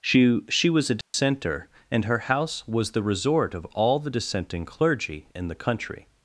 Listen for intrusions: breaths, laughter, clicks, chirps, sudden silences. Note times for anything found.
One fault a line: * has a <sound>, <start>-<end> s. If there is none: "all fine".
* has a dropout, 1.0-1.1 s